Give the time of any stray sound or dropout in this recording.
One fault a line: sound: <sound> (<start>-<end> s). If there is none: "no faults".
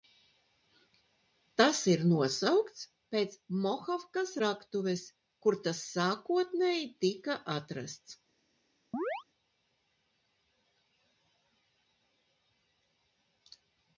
sound: chirp (8.9-9.2 s)